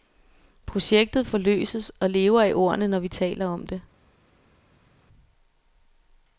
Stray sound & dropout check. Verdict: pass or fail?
pass